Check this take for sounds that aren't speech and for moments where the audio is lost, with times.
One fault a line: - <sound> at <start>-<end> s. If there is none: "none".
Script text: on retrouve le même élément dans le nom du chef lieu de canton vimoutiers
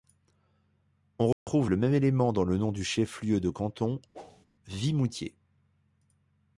- dropout at 1.3-1.5 s
- whoosh at 4.1-4.5 s